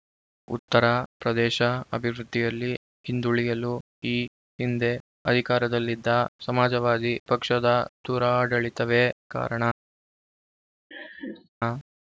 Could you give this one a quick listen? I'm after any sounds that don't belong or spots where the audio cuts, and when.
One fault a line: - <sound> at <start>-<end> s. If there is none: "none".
- laugh at 10.9-11.5 s